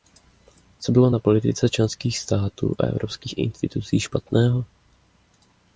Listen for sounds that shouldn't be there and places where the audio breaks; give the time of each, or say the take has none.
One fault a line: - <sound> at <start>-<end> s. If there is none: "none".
none